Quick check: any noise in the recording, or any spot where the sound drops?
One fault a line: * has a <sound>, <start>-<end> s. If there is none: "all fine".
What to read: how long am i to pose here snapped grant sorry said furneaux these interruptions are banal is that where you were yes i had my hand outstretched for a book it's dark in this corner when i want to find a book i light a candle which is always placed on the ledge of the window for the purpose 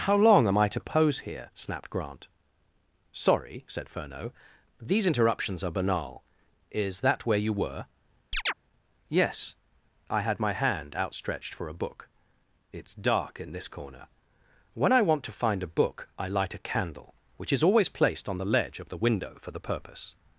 * has a chirp, 8.3-8.5 s